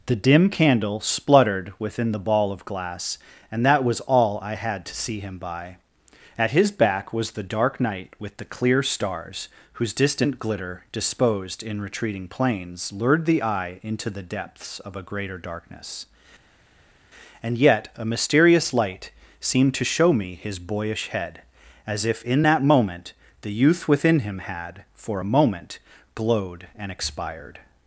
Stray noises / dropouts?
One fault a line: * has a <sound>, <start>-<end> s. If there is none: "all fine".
all fine